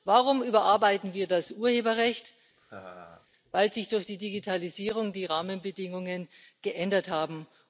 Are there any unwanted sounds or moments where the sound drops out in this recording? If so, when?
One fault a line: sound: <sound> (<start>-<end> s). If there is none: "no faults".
sound: laugh (2.6-3.3 s)